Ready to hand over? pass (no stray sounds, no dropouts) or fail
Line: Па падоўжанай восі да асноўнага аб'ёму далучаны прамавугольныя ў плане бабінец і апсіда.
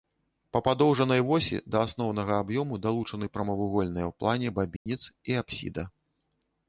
fail